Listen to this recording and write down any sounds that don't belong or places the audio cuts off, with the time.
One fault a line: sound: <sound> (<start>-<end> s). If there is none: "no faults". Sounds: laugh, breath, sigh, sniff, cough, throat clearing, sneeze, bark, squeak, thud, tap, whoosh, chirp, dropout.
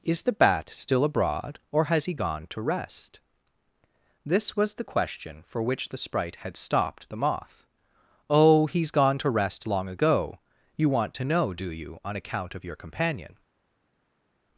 no faults